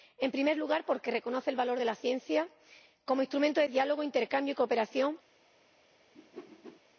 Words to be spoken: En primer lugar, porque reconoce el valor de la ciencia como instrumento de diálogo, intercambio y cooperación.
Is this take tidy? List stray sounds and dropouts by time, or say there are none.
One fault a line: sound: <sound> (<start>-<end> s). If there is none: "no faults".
sound: whoosh (6.1-6.8 s)